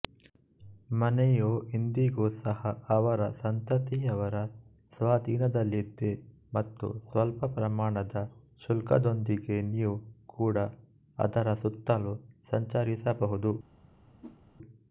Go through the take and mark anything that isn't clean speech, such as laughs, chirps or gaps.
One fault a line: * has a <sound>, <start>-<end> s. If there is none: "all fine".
* has a whoosh, 14.2-14.4 s